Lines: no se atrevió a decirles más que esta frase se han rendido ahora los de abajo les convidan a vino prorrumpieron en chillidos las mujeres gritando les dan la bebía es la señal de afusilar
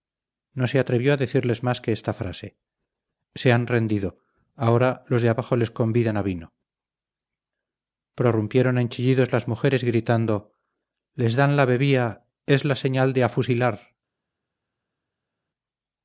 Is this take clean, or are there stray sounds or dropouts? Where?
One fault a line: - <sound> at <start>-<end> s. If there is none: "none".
none